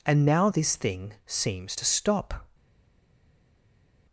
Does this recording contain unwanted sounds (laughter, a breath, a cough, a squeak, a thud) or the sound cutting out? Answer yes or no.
no